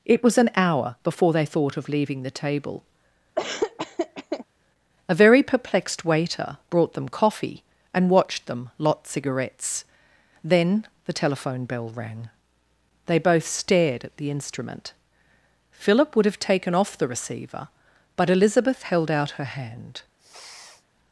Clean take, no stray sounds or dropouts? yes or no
no